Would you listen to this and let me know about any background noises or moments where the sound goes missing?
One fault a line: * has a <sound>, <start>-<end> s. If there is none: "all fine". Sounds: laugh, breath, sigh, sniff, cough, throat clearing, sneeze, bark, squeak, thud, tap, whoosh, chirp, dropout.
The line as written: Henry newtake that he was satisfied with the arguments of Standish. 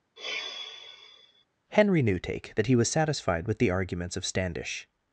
* has a sigh, 0.2-1.4 s